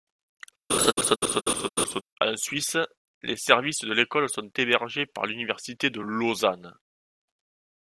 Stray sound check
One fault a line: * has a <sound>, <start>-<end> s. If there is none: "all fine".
* has a laugh, 0.7-2.0 s